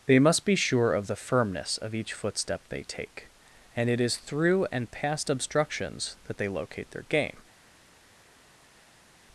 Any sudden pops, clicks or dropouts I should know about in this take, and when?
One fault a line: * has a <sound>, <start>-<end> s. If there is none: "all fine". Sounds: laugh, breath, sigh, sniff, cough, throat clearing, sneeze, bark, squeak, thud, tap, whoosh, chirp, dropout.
all fine